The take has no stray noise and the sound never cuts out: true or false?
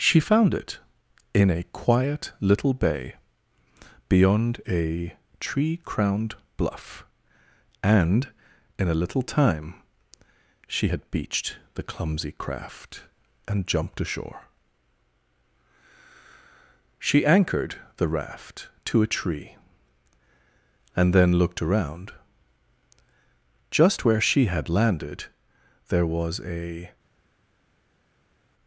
true